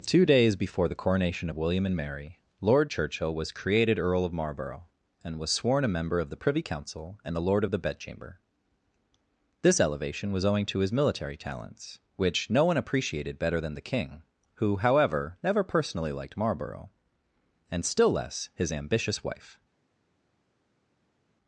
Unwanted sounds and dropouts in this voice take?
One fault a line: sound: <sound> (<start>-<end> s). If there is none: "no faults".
no faults